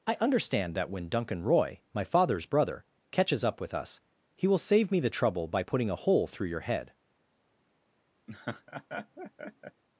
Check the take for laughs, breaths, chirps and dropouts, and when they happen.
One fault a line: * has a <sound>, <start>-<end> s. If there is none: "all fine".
* has a laugh, 8.3-9.8 s